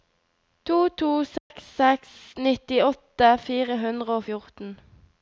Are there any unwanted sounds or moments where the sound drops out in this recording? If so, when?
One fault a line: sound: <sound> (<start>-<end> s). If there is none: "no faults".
sound: dropout (1.4-1.5 s)